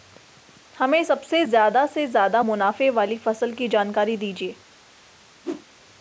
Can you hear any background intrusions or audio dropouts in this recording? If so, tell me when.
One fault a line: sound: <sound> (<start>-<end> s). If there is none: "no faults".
sound: whoosh (5.4-5.7 s)